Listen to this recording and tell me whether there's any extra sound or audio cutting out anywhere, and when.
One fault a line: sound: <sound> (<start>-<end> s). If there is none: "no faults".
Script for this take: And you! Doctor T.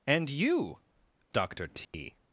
sound: dropout (1.8-1.9 s)